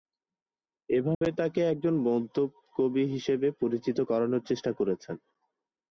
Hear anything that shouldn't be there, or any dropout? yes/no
yes